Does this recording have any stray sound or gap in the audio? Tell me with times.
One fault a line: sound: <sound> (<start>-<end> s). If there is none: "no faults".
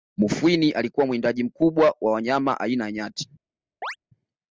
sound: chirp (3.8-4.0 s)